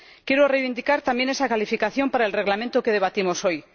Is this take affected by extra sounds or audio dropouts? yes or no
no